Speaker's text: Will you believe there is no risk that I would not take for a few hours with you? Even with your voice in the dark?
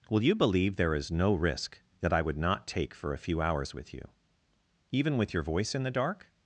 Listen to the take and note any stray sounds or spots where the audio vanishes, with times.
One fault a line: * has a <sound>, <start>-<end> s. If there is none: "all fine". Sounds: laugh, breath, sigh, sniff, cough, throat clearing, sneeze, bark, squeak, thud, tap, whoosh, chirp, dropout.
all fine